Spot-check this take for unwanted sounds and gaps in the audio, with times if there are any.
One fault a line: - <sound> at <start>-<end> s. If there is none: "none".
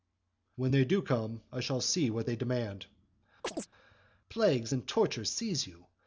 - chirp at 3.4-3.7 s